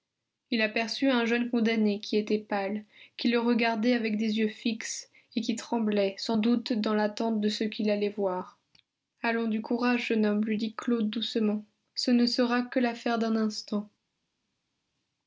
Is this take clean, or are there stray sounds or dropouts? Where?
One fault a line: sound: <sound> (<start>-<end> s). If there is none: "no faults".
no faults